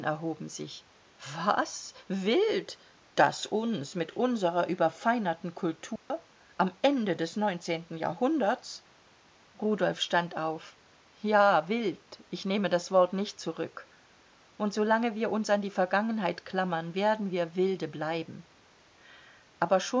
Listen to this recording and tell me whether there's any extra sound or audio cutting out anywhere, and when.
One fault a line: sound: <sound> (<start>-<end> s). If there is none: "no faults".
sound: dropout (6.0-6.1 s)